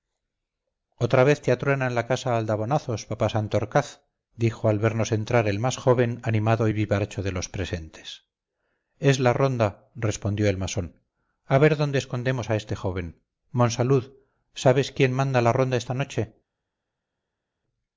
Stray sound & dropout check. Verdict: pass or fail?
pass